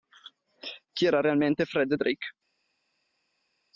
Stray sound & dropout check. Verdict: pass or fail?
pass